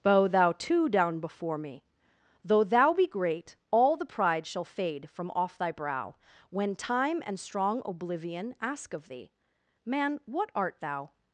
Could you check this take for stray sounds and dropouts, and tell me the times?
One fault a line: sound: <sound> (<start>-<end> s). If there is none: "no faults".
no faults